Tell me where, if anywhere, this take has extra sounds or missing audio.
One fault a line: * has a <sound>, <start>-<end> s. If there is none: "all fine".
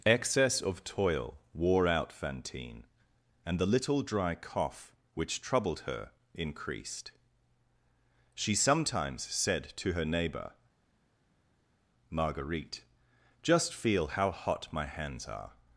all fine